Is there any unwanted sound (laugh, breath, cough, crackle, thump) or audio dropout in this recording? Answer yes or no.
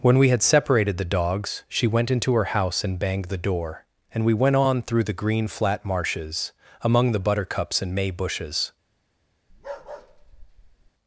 yes